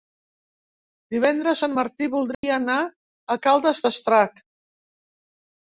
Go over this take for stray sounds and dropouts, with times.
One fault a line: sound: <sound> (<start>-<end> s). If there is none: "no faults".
sound: dropout (2.3-2.4 s)